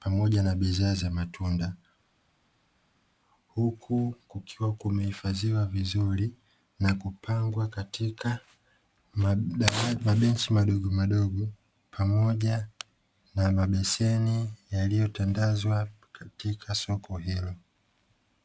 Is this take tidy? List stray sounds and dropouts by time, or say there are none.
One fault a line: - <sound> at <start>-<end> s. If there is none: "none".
none